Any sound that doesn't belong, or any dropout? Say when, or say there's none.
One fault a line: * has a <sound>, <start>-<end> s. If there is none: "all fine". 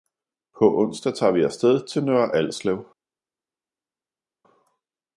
all fine